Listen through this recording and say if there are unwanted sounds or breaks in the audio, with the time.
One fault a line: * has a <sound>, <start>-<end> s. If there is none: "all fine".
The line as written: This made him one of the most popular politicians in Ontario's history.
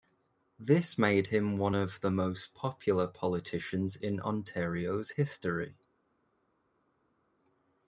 all fine